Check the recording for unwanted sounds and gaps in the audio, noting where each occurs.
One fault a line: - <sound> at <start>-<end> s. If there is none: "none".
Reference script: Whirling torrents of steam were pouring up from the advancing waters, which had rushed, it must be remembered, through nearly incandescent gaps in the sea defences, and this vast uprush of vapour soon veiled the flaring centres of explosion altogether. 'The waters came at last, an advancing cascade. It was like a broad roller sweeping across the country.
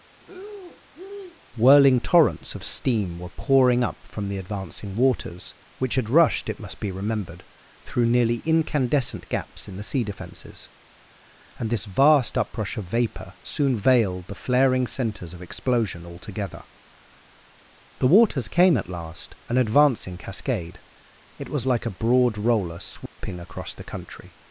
- breath at 0.2-1.4 s
- dropout at 23.1-23.2 s